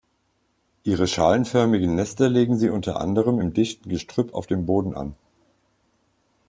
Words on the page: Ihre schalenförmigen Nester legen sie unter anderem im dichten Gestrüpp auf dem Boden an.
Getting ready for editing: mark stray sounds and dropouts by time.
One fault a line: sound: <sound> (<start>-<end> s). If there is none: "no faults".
no faults